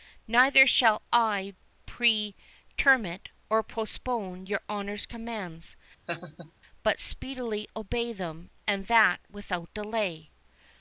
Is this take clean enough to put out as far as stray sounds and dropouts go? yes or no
no